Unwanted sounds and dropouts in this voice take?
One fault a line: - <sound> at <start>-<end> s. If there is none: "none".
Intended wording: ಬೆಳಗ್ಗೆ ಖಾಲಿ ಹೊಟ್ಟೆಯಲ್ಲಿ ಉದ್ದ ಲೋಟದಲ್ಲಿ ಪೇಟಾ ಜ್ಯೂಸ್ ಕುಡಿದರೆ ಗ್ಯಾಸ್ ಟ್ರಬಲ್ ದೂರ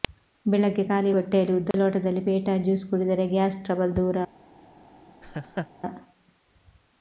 - dropout at 1.7-1.7 s
- laugh at 5.2-5.7 s